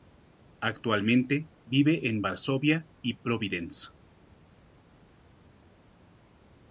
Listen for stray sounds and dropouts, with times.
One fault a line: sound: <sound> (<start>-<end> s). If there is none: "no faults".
no faults